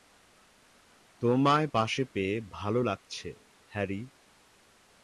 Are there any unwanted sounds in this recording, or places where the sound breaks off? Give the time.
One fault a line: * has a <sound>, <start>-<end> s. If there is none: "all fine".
all fine